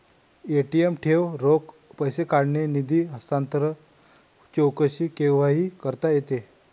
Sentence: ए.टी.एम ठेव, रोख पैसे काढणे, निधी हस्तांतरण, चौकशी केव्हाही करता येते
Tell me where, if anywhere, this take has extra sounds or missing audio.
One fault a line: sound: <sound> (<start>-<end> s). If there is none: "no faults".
no faults